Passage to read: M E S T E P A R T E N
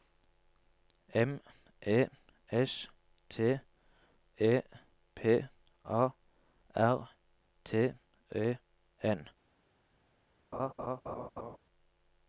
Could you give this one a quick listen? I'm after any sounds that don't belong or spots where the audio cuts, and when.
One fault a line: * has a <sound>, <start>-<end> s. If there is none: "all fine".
* has a laugh, 10.5-11.6 s